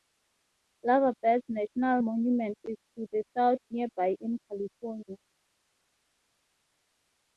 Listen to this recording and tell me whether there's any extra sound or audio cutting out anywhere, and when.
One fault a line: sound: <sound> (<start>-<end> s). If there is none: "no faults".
no faults